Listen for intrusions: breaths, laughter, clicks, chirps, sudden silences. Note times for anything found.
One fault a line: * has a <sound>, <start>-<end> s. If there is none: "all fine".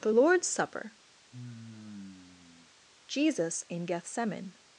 * has a sigh, 1.3-2.7 s